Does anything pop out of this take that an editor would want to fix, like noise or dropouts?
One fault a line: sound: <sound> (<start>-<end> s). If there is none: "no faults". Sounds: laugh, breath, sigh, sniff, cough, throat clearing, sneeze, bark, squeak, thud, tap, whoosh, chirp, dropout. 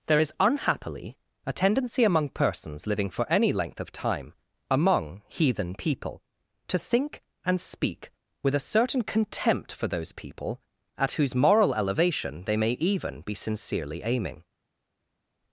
no faults